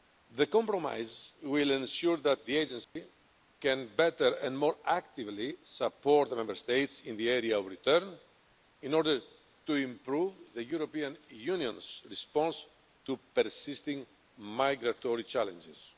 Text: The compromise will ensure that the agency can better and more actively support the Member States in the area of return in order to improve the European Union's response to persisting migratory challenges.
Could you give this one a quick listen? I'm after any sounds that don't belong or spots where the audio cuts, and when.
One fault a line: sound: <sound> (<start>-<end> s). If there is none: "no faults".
sound: dropout (2.8-3.0 s)